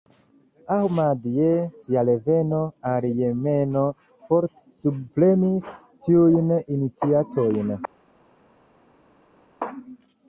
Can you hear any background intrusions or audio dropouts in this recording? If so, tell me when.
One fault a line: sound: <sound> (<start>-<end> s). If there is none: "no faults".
no faults